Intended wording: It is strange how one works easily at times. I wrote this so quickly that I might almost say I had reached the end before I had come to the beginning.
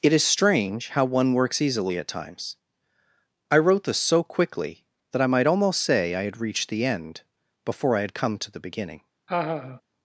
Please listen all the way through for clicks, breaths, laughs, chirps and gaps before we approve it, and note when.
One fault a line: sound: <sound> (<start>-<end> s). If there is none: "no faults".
sound: laugh (9.3-9.8 s)